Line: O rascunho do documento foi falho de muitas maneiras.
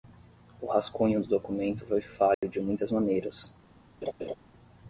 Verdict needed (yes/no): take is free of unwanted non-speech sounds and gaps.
no